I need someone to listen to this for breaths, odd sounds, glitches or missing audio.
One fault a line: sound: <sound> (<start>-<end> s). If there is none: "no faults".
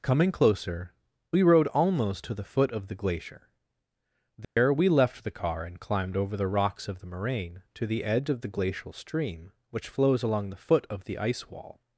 sound: dropout (4.4-4.6 s)